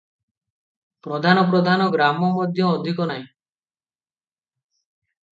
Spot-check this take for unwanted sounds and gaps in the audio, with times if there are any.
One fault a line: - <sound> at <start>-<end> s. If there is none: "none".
none